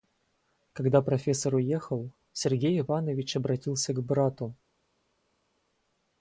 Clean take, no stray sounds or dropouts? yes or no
yes